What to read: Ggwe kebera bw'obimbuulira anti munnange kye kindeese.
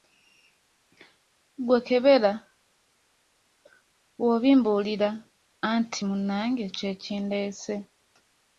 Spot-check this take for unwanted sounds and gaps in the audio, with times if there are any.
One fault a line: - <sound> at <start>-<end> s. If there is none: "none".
none